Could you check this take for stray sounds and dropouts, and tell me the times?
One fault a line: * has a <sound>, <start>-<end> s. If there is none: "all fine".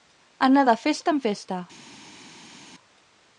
all fine